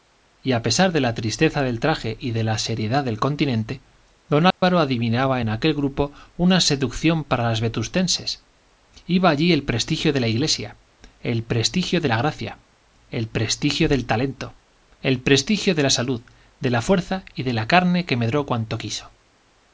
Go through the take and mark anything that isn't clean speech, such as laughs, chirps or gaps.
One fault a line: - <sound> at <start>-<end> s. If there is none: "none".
- dropout at 4.5-4.6 s